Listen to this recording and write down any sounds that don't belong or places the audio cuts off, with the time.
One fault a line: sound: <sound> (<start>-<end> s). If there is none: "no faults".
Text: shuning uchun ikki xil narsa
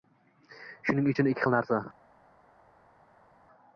no faults